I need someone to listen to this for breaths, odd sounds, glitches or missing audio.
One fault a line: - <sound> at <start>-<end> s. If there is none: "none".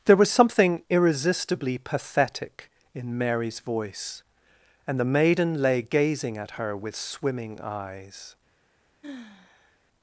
- sigh at 9.0-9.8 s